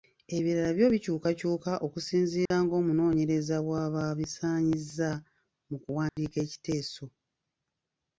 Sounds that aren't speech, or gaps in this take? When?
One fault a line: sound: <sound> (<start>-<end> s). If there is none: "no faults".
sound: dropout (2.5-2.5 s)
sound: dropout (6.1-6.2 s)